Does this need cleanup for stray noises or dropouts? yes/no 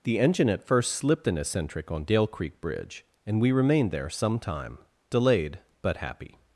no